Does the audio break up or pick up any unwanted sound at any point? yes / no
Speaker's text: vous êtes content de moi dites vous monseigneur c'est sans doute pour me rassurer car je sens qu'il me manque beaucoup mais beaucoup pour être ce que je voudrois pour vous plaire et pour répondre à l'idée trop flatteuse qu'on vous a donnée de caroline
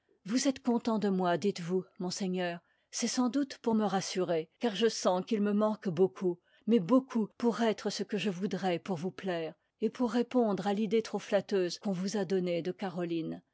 no